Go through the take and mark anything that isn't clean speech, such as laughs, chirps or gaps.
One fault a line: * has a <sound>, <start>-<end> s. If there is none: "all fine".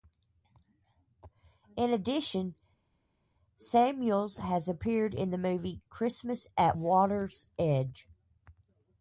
all fine